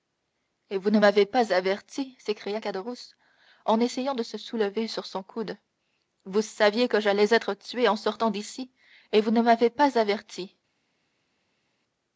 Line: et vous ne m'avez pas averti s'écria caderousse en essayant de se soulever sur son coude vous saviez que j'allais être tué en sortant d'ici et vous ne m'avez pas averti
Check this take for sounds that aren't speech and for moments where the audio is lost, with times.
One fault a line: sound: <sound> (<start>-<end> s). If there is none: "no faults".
no faults